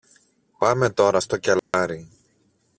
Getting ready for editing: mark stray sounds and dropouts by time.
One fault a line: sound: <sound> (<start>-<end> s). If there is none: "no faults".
sound: dropout (1.6-1.7 s)